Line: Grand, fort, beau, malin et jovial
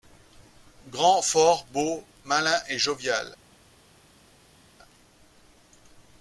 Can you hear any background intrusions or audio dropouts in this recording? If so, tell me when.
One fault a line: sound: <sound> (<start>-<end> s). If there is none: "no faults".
no faults